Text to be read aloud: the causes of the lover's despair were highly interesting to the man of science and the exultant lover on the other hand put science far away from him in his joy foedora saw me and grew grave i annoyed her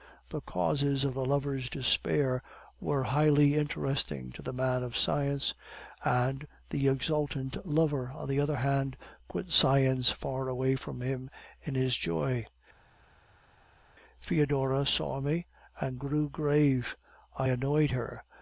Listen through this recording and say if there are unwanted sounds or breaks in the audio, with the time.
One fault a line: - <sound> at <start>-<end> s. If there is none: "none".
none